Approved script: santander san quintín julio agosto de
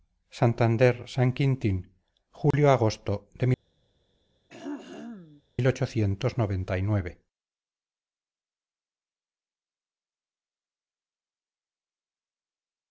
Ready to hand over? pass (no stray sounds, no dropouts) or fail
fail